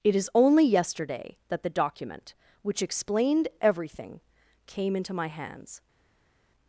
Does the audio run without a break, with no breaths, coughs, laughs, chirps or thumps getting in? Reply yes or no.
yes